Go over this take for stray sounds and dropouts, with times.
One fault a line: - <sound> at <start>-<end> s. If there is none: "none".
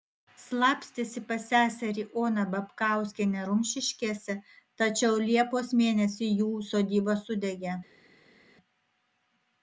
none